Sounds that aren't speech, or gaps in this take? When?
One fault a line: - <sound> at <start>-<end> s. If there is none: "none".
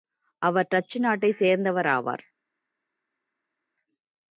none